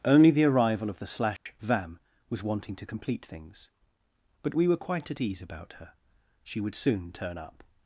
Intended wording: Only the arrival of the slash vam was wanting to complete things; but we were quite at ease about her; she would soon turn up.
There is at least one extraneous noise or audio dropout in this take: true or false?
true